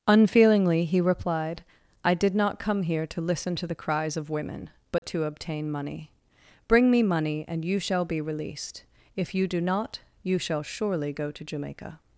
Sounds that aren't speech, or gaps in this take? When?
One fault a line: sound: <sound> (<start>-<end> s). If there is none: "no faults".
sound: dropout (5.0-5.0 s)